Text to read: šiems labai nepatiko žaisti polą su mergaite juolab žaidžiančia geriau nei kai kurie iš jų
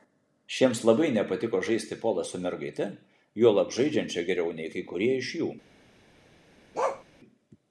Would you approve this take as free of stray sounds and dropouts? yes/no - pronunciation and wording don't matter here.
no